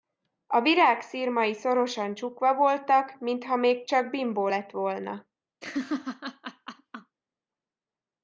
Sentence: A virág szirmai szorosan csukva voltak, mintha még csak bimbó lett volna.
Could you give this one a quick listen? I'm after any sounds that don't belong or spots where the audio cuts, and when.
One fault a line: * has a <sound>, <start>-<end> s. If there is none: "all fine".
* has a laugh, 5.6-7.2 s